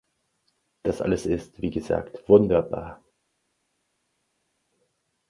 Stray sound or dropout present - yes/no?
no